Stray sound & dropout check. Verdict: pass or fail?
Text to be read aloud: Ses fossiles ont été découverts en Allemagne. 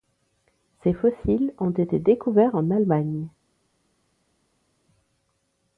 pass